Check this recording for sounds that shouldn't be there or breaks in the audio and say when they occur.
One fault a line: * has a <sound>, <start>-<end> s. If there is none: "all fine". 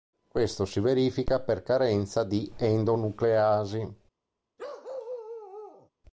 * has a bark, 4.6-5.9 s